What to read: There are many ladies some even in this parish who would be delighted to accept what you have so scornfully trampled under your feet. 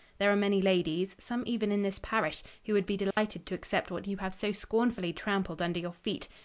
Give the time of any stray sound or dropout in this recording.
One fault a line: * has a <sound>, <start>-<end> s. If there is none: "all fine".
* has a dropout, 3.1-3.2 s